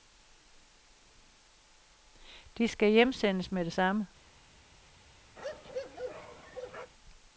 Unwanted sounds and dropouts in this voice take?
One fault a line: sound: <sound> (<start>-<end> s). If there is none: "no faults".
sound: bark (5.4-6.9 s)